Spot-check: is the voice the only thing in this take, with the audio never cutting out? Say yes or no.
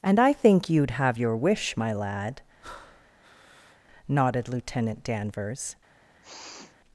no